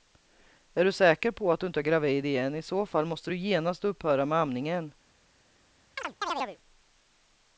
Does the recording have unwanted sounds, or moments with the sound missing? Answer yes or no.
yes